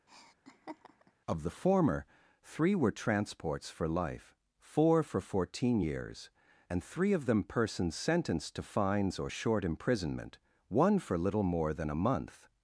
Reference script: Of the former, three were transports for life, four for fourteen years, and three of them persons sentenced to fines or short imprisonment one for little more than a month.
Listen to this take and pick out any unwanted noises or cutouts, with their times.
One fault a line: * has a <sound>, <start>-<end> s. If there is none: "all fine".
* has a laugh, 0.1-1.1 s